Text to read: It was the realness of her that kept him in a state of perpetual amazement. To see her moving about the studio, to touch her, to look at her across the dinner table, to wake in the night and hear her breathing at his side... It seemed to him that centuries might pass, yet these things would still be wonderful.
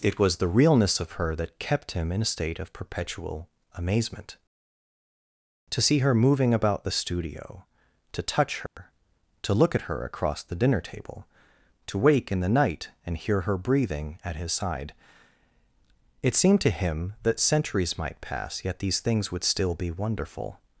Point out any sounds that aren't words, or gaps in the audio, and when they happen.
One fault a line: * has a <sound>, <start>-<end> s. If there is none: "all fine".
* has a dropout, 8.7-8.8 s